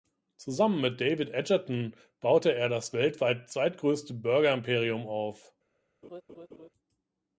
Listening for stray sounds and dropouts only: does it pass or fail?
fail